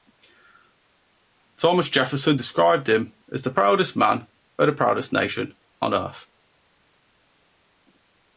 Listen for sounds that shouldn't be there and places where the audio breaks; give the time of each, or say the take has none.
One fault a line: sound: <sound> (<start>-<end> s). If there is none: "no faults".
no faults